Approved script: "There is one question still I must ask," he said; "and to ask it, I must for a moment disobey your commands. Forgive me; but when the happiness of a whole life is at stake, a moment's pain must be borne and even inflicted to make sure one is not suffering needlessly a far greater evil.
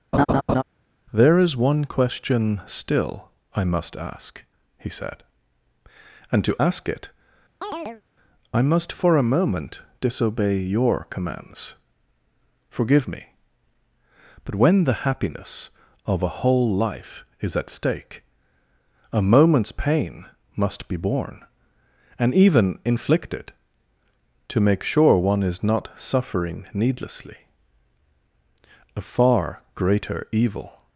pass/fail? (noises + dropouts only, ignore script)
fail